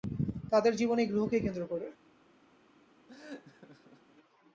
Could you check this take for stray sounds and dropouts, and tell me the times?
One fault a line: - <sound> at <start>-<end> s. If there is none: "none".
- laugh at 3.1-4.1 s